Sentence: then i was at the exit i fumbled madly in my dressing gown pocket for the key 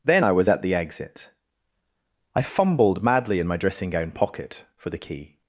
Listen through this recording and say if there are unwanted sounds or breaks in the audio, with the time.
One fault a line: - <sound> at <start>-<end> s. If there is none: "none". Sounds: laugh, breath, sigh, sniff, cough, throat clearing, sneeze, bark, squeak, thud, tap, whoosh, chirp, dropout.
none